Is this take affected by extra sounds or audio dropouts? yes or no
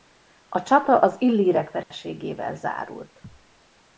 yes